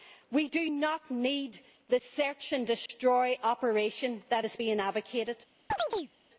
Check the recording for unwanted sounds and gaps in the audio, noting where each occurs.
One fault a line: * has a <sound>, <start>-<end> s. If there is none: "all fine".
* has a dropout, 2.9-2.9 s
* has a chirp, 5.7-6.1 s